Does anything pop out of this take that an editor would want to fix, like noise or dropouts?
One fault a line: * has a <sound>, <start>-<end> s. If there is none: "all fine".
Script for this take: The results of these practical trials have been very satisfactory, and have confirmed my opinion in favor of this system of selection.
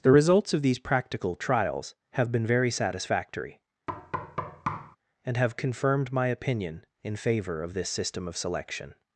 * has a thud, 3.9-5.0 s